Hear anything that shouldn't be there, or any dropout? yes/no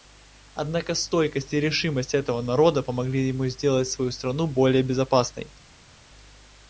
no